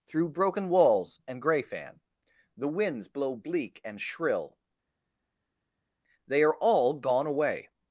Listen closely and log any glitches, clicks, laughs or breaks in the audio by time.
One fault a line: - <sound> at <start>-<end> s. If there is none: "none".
none